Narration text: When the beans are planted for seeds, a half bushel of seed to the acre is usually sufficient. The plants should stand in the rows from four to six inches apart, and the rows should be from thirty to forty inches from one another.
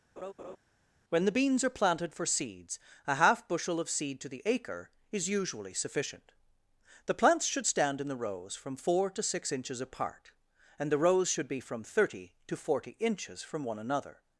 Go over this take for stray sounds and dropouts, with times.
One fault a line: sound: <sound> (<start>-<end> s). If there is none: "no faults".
sound: laugh (0.2-0.6 s)